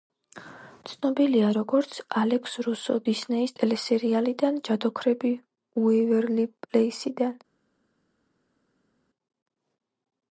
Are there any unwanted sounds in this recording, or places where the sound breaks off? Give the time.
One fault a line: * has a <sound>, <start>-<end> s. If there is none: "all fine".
all fine